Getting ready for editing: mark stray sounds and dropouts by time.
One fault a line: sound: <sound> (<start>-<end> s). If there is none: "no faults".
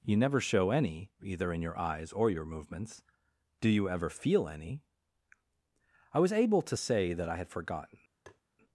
sound: tap (8.3-8.4 s)